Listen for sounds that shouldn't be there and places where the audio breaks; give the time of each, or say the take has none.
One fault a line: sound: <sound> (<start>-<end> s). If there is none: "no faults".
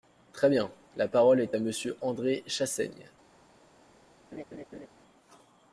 sound: laugh (4.3-4.9 s)